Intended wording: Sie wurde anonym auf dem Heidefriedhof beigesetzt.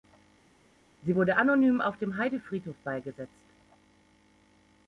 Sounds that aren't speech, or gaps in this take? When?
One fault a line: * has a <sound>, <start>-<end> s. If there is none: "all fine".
all fine